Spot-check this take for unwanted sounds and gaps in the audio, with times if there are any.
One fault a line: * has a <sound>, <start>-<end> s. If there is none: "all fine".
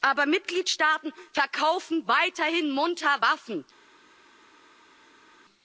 all fine